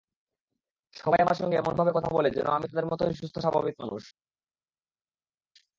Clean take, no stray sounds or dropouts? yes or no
yes